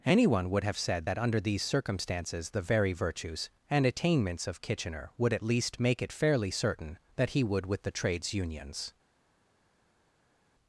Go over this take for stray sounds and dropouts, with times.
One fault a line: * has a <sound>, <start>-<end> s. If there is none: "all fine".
all fine